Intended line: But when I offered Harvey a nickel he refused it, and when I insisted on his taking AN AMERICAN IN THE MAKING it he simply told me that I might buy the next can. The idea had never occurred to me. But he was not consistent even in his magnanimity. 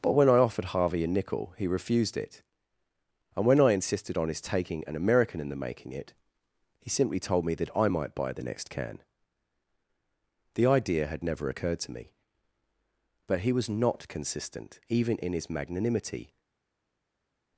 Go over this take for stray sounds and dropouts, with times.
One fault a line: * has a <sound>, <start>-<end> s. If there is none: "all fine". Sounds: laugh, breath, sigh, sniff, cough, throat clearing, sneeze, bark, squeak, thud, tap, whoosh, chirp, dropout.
all fine